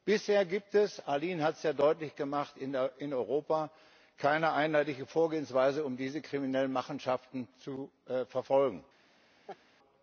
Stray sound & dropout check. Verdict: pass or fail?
fail